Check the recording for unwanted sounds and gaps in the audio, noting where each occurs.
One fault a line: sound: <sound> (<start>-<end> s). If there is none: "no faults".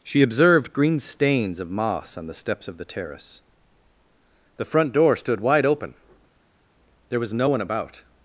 no faults